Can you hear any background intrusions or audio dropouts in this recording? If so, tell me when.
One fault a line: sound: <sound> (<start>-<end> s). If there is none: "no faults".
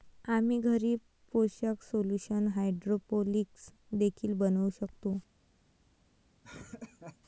sound: laugh (6.4-7.2 s)